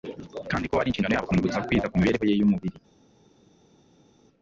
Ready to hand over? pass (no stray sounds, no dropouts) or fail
pass